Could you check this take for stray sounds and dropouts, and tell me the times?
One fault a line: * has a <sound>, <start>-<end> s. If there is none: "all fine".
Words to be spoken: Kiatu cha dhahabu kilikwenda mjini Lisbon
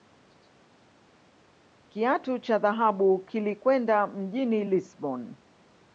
all fine